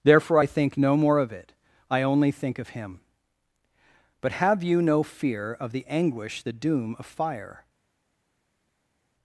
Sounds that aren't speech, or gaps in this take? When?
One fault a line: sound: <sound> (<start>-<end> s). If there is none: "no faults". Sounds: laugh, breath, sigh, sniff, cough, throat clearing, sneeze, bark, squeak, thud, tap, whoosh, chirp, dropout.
no faults